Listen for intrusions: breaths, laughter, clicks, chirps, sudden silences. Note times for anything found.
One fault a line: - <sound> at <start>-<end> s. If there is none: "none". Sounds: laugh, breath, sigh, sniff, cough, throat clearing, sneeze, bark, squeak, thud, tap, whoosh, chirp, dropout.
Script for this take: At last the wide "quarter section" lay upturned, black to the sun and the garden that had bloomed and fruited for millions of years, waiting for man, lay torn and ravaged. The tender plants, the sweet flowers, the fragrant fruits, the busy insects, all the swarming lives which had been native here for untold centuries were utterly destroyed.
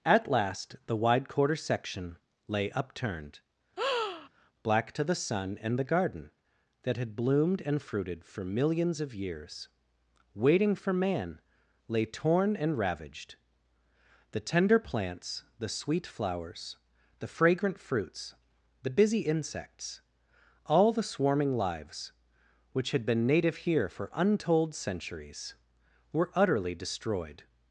- breath at 3.8-4.3 s